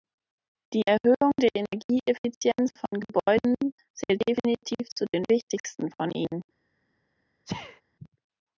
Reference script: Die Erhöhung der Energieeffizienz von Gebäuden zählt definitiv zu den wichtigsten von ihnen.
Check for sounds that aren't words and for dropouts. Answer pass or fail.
fail